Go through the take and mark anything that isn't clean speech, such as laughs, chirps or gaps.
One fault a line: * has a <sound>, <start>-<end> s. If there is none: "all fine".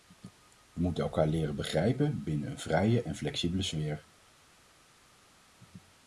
all fine